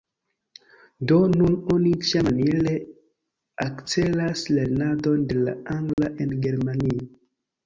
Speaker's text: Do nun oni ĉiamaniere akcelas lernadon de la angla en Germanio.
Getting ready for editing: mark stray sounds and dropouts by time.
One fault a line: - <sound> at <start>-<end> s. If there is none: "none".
- dropout at 5.9-6.0 s